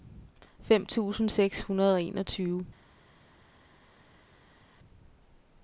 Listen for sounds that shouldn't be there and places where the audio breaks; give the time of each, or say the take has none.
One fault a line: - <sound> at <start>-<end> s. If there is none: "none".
none